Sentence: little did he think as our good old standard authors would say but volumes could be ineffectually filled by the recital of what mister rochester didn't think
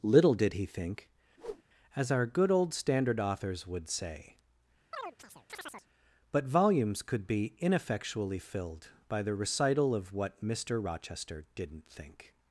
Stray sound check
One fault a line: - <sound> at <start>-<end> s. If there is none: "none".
- whoosh at 1.4-1.6 s
- chirp at 4.9-5.9 s